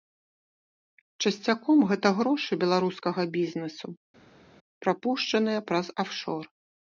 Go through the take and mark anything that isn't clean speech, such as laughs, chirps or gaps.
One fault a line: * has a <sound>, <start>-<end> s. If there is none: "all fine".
all fine